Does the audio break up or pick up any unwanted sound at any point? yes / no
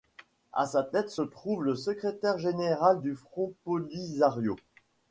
no